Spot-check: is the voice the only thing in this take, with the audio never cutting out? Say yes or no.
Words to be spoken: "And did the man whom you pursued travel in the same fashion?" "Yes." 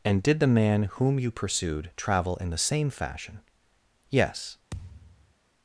no